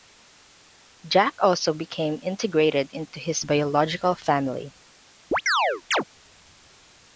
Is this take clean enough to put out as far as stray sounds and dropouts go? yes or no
no